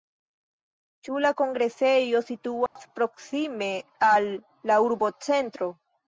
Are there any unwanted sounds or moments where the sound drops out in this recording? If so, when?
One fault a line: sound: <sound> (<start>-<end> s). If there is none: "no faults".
sound: dropout (2.7-2.8 s)